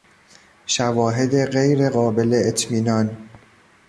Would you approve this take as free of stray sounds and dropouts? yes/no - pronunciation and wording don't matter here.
yes